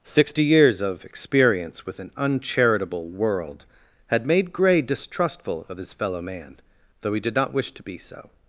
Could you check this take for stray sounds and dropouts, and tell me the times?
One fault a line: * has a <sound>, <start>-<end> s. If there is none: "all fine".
all fine